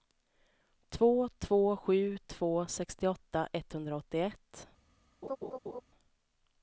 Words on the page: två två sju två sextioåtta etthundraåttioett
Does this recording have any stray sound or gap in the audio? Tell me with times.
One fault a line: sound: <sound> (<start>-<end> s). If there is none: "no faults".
sound: laugh (5.2-5.8 s)